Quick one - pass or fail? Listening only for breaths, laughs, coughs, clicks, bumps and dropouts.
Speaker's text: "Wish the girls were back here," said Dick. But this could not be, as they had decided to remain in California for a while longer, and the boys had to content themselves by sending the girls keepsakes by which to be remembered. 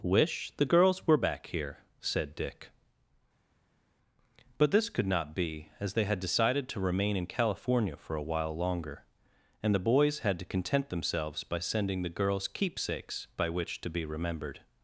pass